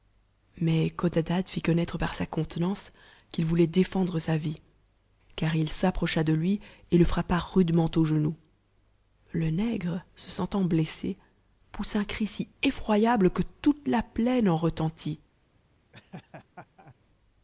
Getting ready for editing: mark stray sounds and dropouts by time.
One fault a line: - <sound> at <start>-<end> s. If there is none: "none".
- laugh at 15.9-17.0 s